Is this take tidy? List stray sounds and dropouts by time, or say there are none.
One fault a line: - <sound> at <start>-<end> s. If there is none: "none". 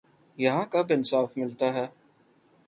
none